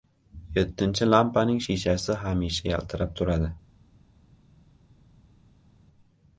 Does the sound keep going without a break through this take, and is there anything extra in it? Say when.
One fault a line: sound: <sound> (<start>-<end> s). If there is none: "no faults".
no faults